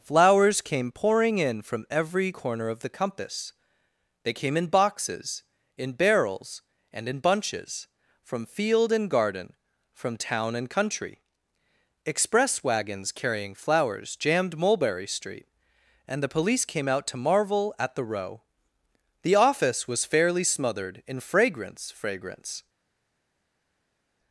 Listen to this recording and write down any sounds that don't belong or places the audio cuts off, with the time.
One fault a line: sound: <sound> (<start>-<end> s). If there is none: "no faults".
no faults